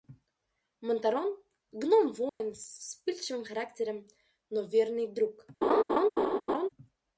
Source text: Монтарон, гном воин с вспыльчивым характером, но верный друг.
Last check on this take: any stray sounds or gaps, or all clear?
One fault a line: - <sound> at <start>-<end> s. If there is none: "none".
- dropout at 2.3-2.4 s
- laugh at 5.6-6.7 s